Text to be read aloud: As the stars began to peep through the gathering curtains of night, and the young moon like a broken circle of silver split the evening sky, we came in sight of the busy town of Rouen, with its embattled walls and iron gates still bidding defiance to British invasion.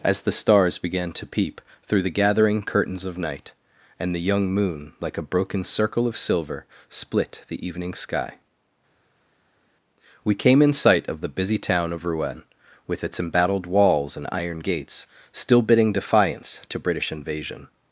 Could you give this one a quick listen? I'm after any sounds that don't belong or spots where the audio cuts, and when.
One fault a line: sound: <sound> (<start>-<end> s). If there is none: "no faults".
no faults